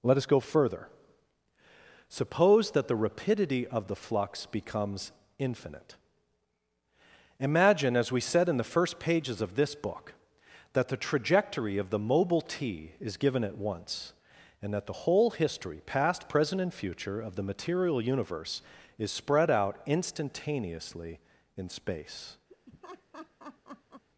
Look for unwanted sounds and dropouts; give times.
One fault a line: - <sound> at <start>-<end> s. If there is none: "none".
- laugh at 22.5-24.0 s